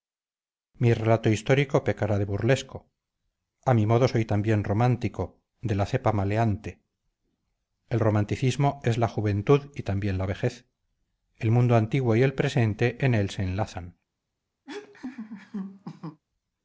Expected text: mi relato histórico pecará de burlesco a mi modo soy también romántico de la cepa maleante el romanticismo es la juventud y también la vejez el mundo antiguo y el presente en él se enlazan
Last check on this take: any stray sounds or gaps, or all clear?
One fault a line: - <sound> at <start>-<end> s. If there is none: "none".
- laugh at 14.7-16.2 s